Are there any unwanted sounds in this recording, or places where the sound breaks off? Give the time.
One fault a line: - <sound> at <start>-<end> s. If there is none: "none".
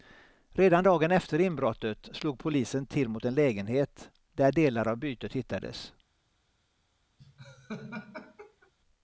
- laugh at 7.2-8.7 s